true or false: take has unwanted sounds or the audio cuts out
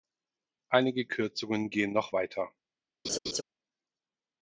true